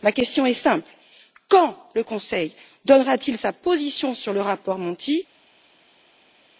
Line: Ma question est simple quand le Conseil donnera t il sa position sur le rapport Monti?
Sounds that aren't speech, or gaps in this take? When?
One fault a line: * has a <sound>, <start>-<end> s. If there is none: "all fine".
all fine